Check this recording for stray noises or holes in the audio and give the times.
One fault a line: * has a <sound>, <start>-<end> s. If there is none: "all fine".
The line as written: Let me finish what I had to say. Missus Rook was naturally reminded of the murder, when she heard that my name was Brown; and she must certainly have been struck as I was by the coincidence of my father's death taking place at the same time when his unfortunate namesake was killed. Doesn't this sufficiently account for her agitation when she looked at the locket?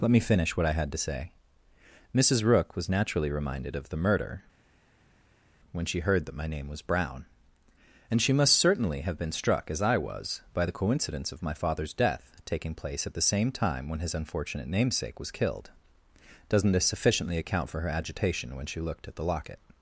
all fine